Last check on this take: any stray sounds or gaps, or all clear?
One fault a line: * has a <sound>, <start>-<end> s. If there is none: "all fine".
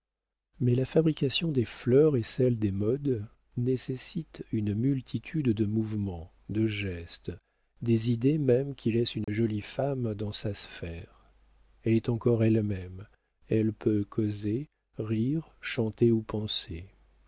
* has a dropout, 9.2-9.3 s